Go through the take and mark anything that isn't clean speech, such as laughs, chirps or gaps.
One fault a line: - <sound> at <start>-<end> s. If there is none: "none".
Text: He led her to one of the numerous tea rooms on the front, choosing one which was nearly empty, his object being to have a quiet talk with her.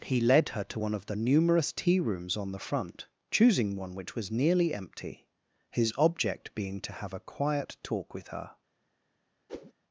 - whoosh at 9.5-9.7 s